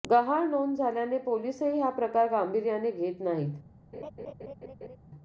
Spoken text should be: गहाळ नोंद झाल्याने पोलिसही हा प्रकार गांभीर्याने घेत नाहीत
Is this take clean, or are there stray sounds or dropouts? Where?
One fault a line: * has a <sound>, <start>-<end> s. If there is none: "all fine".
* has a laugh, 3.9-5.0 s